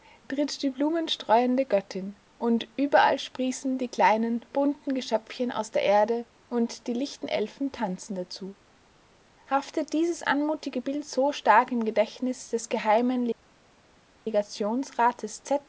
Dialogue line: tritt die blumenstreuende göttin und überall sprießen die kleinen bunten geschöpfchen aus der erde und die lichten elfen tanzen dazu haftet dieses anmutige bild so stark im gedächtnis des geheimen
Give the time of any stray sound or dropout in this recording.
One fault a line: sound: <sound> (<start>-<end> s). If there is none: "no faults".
no faults